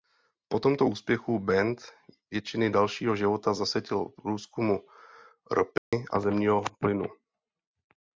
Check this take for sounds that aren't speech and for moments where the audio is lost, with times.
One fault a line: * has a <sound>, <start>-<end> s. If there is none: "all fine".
* has a dropout, 5.8-5.9 s